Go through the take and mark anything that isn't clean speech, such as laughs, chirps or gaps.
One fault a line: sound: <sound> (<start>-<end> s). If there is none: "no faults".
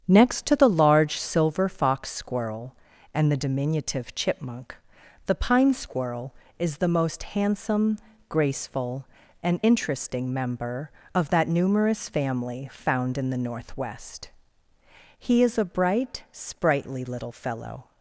no faults